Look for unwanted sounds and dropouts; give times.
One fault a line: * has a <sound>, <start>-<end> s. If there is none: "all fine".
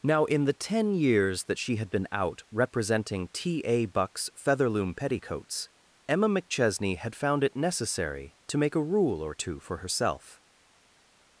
all fine